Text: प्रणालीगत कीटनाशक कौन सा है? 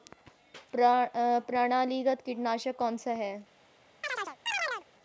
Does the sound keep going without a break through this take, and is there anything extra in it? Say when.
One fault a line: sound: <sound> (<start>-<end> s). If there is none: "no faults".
sound: chirp (4.0-4.9 s)